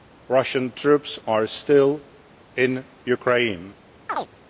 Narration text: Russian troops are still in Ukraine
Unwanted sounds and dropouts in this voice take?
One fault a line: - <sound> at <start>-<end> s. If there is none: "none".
- chirp at 4.1-4.3 s